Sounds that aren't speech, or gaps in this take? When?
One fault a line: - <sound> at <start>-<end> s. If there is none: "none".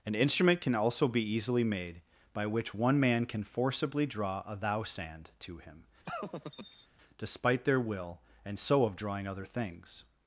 - laugh at 6.0-6.9 s